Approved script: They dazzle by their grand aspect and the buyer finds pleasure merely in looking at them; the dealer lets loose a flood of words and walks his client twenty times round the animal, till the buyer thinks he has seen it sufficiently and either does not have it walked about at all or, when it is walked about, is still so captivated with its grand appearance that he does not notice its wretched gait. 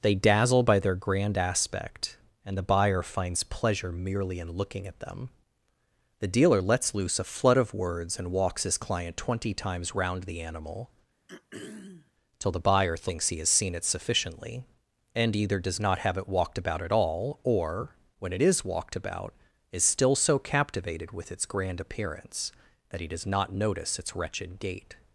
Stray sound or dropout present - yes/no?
yes